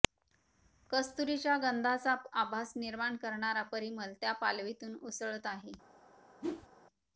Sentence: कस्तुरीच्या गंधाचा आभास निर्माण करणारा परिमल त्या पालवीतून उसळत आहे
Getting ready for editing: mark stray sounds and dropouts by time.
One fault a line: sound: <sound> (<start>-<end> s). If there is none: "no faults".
sound: whoosh (6.4-6.7 s)